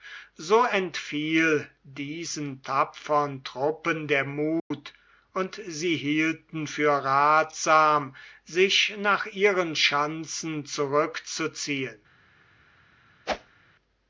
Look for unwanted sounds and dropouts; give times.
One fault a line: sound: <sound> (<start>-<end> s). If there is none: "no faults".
sound: dropout (4.6-4.7 s)
sound: whoosh (13.3-13.6 s)